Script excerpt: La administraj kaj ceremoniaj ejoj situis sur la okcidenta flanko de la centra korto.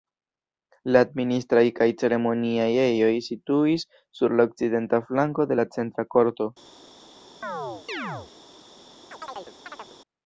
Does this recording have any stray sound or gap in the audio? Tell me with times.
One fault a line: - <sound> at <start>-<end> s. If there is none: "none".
- chirp at 7.4-8.3 s
- chirp at 9.1-10.0 s